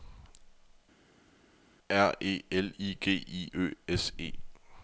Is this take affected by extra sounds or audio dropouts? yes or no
no